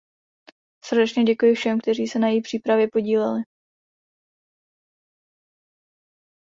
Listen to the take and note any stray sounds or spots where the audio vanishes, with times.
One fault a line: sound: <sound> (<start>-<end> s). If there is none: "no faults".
no faults